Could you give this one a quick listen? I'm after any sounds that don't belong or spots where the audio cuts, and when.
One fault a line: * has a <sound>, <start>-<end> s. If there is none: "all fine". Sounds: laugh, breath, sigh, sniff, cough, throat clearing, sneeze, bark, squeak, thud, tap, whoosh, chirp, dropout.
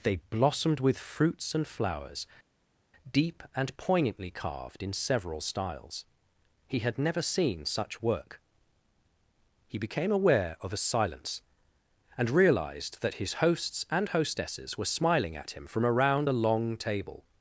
all fine